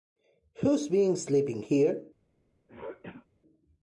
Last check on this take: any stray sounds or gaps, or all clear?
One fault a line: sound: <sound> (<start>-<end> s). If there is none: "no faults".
sound: throat clearing (2.7-3.3 s)